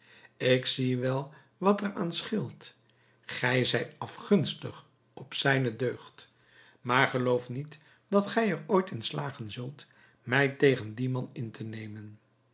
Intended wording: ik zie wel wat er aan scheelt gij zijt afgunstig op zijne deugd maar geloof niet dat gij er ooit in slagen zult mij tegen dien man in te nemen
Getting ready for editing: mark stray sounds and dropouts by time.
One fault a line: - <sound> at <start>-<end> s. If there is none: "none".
none